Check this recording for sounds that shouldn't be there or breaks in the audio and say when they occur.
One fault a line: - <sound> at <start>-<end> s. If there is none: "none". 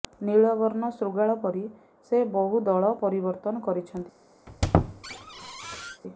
- squeak at 4.5-6.0 s